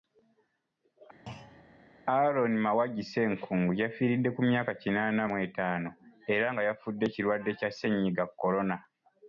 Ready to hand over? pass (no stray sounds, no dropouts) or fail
fail